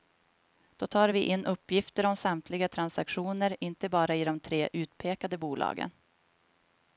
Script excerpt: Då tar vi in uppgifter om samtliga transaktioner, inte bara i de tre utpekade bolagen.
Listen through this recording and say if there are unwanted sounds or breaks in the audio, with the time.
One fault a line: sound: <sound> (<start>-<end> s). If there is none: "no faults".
no faults